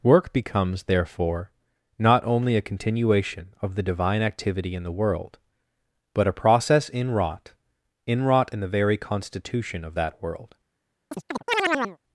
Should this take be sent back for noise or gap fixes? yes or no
yes